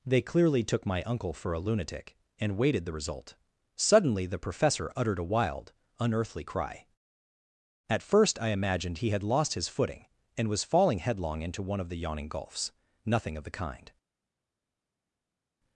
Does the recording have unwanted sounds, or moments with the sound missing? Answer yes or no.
no